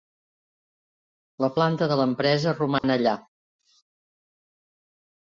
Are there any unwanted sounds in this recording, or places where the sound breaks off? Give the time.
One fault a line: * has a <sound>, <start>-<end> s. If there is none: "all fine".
* has a dropout, 2.8-2.8 s